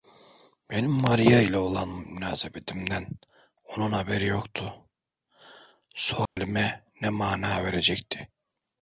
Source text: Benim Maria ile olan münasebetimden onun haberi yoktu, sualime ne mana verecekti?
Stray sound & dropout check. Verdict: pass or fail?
fail